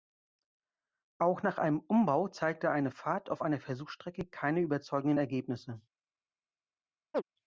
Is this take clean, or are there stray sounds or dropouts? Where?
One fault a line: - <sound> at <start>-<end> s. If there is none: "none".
- chirp at 7.1-7.2 s